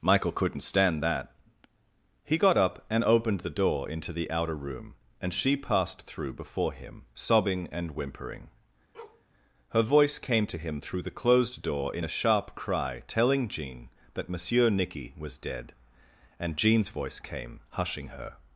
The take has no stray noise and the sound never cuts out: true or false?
false